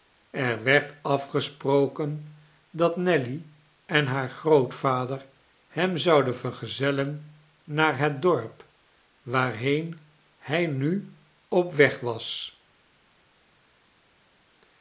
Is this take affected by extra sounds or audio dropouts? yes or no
no